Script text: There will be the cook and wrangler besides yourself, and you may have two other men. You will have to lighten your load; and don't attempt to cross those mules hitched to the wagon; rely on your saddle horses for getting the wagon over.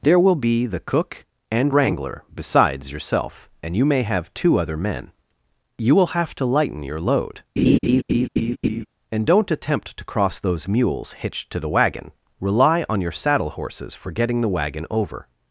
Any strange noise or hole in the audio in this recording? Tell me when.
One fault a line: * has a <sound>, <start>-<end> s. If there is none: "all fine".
* has a laugh, 7.6-8.9 s